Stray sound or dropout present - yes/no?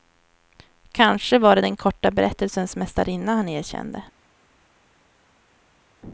no